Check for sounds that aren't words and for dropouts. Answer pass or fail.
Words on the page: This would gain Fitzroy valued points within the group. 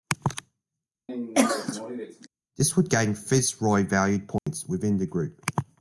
fail